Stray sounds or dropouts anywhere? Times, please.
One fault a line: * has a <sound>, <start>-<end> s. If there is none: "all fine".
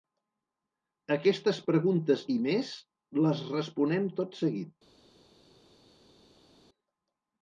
all fine